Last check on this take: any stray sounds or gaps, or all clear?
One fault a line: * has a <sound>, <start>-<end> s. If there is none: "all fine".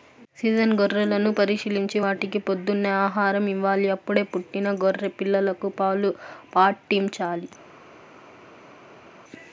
all fine